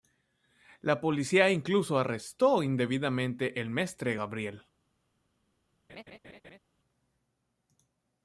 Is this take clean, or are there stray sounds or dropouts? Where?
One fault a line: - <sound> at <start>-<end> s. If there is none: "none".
- laugh at 5.9-6.6 s